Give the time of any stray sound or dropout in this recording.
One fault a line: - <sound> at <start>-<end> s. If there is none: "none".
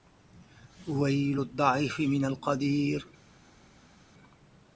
none